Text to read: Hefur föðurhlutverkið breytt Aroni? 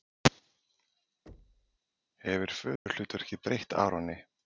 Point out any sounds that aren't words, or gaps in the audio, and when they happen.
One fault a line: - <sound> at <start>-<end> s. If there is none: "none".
- thud at 1.3-1.8 s
- dropout at 2.8-2.9 s